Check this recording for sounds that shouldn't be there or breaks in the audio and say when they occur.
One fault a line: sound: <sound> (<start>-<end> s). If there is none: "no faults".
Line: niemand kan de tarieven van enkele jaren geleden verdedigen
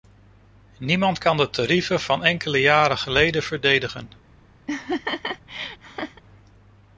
sound: laugh (4.7-6.2 s)